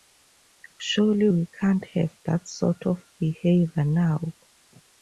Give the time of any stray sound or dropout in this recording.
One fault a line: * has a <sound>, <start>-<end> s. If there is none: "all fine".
all fine